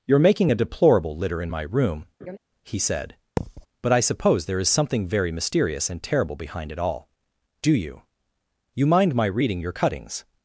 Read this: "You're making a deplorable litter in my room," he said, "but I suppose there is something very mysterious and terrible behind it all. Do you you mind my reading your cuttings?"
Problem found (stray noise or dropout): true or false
true